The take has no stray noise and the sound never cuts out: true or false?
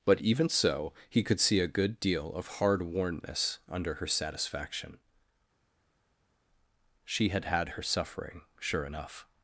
true